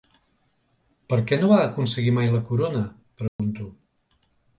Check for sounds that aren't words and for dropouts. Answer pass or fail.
fail